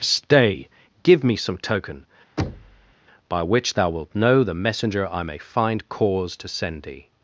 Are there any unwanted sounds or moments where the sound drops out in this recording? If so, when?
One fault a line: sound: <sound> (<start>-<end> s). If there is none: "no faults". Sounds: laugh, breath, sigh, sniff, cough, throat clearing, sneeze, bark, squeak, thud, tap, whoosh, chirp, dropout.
sound: thud (2.4-2.9 s)